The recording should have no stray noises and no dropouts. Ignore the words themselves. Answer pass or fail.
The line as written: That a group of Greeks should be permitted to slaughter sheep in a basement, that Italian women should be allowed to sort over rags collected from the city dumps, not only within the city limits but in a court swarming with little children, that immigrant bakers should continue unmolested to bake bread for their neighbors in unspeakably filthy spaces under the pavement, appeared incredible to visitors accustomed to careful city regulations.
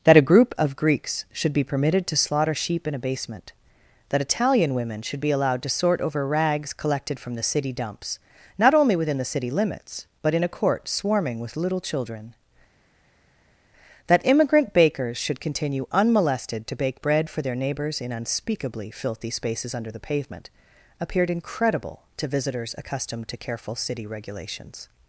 pass